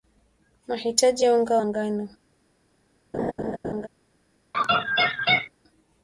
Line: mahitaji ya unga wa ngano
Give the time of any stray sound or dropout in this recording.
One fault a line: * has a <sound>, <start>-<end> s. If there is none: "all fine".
* has a laugh, 3.1-3.9 s
* has a laugh, 4.5-5.5 s